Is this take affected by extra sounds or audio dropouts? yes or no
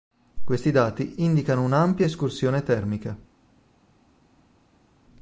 no